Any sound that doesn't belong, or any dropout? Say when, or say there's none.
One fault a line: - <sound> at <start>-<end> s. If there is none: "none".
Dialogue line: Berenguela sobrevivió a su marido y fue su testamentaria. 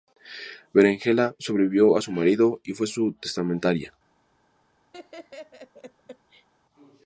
- laugh at 4.9-6.5 s